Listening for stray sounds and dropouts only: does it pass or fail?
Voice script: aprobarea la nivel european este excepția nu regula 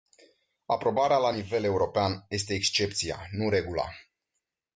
pass